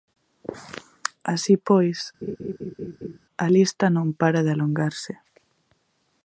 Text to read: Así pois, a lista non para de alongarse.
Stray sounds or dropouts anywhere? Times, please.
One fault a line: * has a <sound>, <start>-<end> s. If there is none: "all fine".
* has a laugh, 2.2-3.2 s